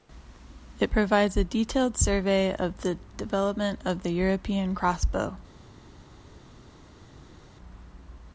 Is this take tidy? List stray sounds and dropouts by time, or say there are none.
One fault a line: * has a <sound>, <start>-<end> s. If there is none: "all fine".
all fine